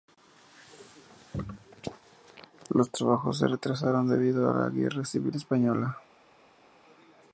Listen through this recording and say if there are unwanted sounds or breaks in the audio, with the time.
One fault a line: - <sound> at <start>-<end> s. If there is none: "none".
none